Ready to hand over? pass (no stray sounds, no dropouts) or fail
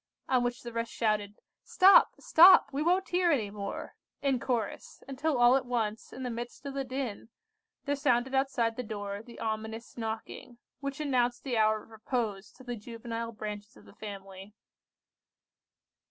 pass